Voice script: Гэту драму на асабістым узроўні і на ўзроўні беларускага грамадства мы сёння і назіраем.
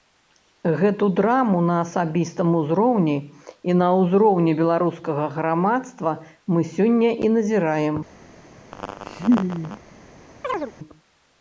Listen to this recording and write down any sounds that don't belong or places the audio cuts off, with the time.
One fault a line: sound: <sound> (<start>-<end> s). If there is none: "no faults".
sound: laugh (8.7-9.8 s)
sound: chirp (10.4-10.7 s)